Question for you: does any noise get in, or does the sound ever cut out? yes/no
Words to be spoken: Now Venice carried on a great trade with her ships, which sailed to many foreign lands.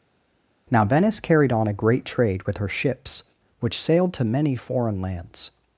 no